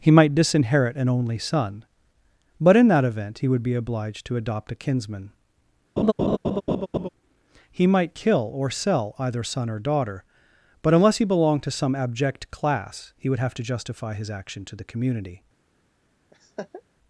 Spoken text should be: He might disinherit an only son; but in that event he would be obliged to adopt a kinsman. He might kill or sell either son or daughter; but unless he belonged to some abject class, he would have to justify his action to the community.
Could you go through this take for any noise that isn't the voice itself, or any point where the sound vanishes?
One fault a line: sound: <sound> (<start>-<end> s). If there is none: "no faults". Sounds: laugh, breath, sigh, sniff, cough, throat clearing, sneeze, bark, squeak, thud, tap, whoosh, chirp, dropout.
sound: laugh (6.0-7.1 s)
sound: laugh (16.3-16.8 s)